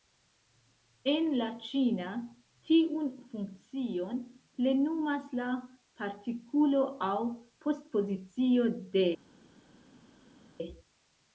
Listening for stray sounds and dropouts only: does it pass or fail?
pass